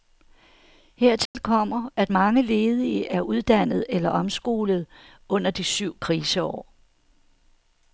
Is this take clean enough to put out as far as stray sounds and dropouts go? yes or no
no